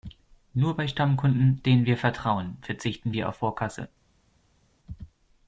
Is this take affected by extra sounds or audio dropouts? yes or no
no